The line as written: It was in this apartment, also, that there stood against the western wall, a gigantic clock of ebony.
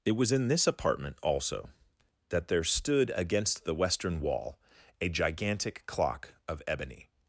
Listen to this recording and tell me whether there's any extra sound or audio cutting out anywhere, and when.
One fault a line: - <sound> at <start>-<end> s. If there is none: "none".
none